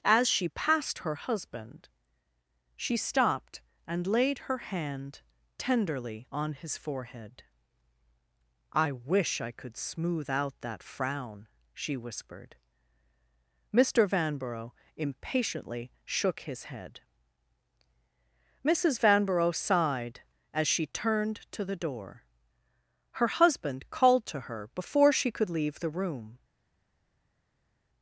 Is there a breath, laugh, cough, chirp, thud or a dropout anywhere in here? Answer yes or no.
no